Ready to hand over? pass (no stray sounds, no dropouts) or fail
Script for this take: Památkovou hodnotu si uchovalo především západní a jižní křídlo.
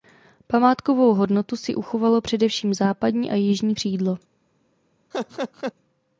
fail